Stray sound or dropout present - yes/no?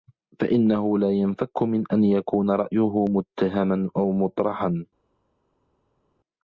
no